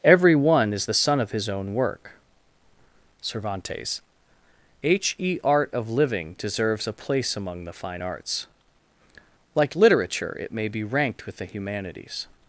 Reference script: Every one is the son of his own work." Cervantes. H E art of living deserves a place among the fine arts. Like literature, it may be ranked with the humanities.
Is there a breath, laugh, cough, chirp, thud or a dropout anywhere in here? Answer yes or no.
no